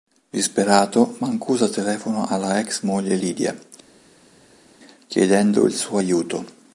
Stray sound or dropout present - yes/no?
no